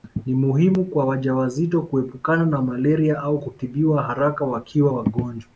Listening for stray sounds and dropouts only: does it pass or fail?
pass